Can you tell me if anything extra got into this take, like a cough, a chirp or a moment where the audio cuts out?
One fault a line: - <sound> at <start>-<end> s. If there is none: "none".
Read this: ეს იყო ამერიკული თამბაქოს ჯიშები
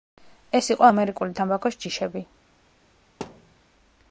- thud at 3.2-3.6 s